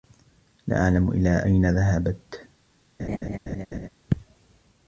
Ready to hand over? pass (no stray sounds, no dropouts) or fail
fail